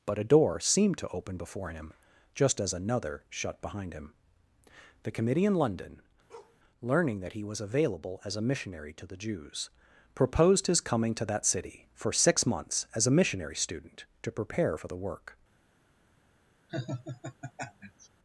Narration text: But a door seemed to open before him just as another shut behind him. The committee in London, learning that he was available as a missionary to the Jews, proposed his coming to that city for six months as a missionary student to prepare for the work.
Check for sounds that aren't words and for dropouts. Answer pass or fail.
fail